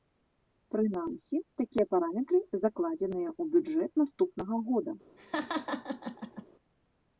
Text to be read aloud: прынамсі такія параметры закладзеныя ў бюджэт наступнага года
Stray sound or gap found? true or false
true